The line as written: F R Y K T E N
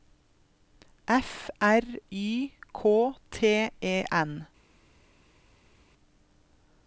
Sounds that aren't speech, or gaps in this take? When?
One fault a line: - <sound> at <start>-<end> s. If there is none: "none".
none